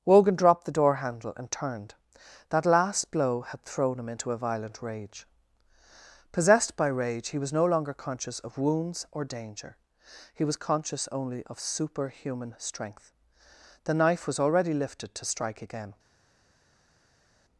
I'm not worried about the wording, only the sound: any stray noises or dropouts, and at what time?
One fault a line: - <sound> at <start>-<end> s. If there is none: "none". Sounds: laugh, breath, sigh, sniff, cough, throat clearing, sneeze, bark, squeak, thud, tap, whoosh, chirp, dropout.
none